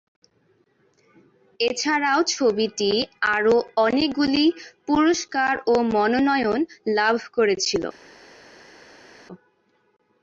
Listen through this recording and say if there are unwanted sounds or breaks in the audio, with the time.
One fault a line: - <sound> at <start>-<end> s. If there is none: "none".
none